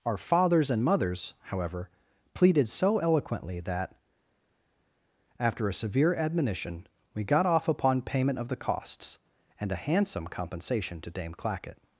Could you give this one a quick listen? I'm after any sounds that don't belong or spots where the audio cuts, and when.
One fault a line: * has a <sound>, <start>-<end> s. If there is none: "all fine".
all fine